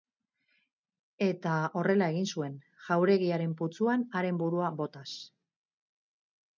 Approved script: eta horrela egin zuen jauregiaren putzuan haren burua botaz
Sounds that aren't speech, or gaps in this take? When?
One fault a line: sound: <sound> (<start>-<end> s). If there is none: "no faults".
no faults